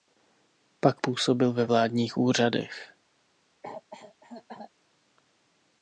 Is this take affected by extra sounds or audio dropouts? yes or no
yes